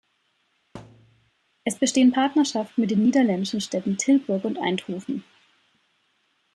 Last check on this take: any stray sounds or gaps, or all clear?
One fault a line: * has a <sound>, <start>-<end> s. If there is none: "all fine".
* has a thud, 0.7-1.3 s